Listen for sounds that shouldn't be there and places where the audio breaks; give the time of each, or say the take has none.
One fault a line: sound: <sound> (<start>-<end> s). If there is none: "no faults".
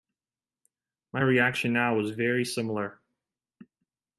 no faults